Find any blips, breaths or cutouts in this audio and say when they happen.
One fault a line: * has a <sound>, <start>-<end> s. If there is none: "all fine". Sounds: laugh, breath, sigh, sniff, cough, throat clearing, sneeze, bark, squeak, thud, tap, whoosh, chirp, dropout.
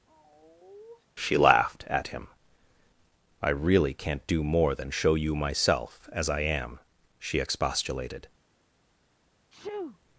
* has a sigh, 0.1-1.1 s
* has a sneeze, 9.5-10.0 s